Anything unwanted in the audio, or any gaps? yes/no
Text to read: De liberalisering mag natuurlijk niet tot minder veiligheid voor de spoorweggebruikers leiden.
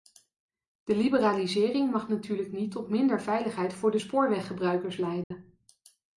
yes